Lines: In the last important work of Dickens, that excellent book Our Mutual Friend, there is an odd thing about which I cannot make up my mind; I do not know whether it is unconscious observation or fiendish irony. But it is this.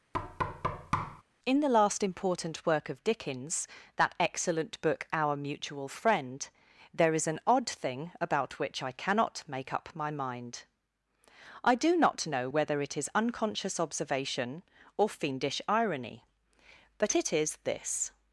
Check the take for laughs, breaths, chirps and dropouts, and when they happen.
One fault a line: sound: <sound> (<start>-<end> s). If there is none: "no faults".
sound: thud (0.1-1.2 s)